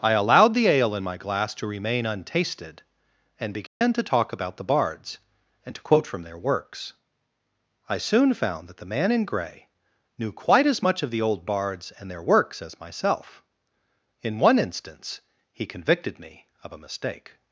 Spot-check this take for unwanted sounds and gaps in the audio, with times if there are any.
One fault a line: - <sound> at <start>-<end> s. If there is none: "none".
- dropout at 3.7-3.8 s